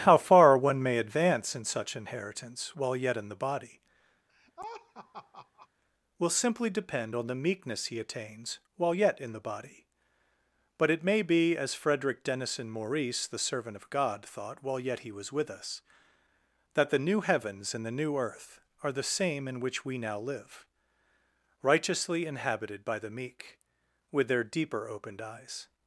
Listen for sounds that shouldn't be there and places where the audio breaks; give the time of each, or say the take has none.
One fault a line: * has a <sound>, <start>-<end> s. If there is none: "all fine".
* has a laugh, 4.3-5.7 s